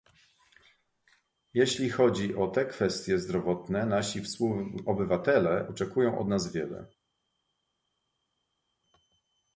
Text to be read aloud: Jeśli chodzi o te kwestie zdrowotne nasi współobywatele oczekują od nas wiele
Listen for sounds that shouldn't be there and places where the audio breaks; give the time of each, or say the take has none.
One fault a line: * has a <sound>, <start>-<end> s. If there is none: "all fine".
all fine